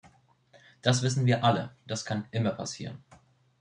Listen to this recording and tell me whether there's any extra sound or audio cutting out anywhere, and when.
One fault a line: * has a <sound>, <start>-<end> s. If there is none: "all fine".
all fine